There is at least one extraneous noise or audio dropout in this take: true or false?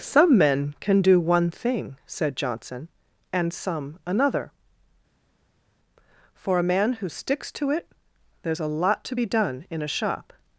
false